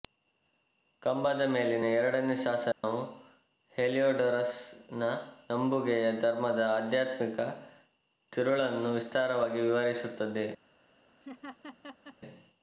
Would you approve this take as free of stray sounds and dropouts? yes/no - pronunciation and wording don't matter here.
no